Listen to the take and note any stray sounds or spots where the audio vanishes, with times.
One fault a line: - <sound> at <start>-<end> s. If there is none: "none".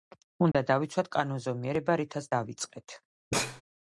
- dropout at 0.5-0.5 s
- sneeze at 3.3-3.6 s